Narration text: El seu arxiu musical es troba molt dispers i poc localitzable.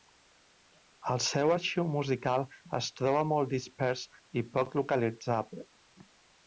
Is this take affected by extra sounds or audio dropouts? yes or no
no